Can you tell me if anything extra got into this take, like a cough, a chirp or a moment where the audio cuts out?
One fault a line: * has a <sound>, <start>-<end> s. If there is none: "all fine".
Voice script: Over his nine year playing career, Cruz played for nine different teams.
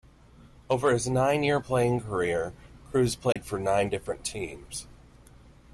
* has a dropout, 3.3-3.4 s